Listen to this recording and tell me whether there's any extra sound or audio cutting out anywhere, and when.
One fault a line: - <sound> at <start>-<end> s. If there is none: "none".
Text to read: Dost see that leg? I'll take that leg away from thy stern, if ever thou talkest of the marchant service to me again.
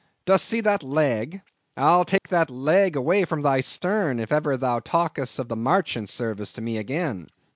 - dropout at 2.2-2.2 s